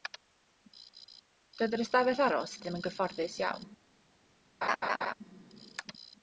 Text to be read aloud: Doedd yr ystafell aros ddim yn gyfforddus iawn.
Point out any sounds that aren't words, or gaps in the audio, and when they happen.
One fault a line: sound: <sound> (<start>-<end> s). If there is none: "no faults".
sound: laugh (4.6-5.1 s)